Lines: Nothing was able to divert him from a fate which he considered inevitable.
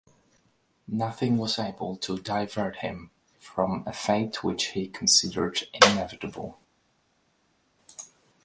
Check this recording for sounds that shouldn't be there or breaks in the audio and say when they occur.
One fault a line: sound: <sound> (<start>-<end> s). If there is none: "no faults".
no faults